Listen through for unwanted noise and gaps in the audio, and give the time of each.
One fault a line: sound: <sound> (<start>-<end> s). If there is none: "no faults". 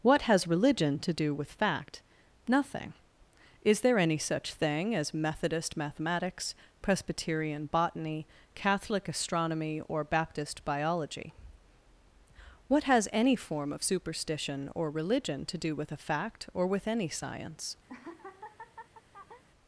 sound: laugh (17.9-19.4 s)